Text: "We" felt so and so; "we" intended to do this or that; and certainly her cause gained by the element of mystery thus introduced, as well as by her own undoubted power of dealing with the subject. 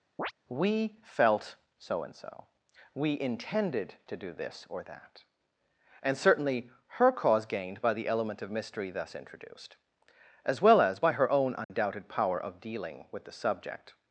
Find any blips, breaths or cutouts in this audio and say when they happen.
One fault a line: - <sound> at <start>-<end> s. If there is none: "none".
- chirp at 0.2-0.3 s
- dropout at 11.6-11.7 s